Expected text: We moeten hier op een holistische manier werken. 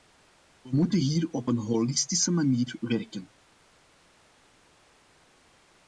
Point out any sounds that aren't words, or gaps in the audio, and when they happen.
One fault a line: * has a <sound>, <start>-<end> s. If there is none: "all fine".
all fine